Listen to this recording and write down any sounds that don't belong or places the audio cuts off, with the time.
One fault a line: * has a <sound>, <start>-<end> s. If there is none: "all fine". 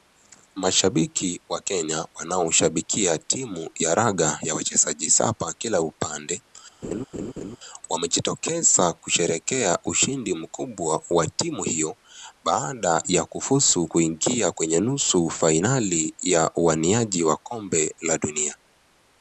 * has a laugh, 6.8-7.6 s